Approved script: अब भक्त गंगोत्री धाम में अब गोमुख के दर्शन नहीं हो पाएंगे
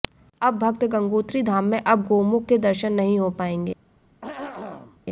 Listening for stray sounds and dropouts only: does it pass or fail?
fail